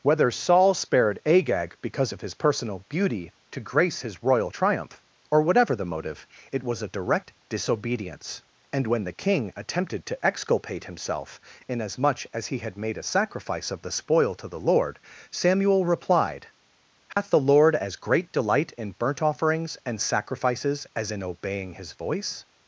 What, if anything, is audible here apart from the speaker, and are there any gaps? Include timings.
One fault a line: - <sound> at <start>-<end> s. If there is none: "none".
- dropout at 17.1-17.2 s